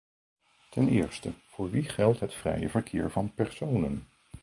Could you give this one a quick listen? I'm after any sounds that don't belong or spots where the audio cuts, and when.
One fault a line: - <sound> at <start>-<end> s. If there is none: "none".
none